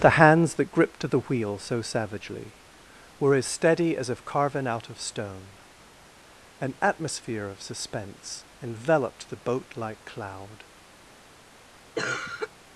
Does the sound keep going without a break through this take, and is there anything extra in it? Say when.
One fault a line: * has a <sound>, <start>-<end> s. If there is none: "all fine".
* has a cough, 11.9-12.5 s